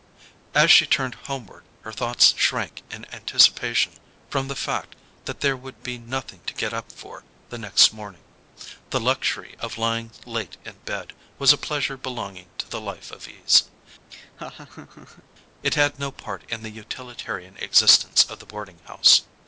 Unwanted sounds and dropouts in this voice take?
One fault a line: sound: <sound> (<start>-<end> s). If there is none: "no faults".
sound: laugh (14.1-15.2 s)